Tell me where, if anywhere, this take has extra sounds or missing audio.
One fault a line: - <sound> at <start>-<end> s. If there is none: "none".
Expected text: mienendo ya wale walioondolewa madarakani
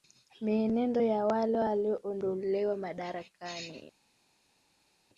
none